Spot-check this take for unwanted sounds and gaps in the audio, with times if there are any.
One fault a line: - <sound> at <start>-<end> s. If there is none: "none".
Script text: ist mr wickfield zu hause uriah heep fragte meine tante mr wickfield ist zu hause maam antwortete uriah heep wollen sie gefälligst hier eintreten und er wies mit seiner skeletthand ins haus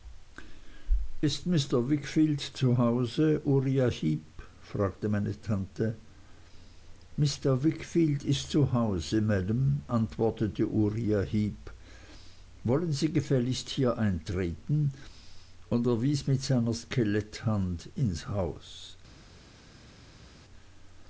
none